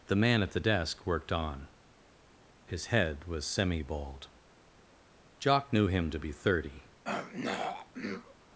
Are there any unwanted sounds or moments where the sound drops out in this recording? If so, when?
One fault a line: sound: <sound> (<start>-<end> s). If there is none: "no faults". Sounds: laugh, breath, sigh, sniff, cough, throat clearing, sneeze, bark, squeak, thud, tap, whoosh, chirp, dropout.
sound: throat clearing (7.0-8.4 s)